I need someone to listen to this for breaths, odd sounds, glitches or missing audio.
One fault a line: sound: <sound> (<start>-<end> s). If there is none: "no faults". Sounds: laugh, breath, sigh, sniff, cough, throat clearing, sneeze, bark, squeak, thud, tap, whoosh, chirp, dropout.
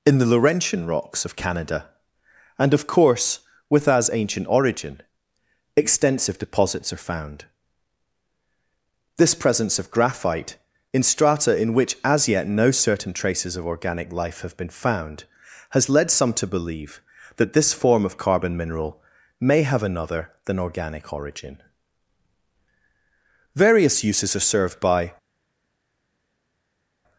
no faults